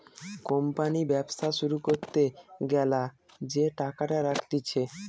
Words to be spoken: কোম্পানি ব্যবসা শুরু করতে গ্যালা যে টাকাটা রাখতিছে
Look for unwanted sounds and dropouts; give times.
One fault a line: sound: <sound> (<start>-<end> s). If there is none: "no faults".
no faults